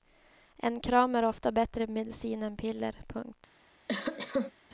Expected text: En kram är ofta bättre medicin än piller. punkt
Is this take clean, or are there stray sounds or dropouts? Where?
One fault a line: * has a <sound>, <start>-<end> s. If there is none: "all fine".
* has a cough, 3.9-4.5 s